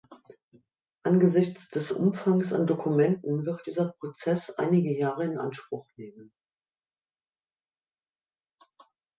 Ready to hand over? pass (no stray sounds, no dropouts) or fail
pass